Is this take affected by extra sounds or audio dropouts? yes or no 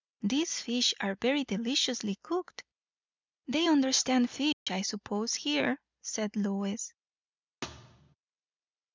yes